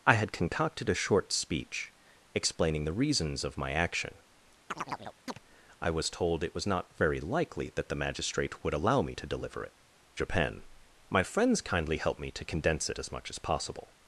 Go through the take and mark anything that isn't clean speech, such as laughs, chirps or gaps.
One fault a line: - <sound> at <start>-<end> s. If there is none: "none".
- chirp at 4.7-5.4 s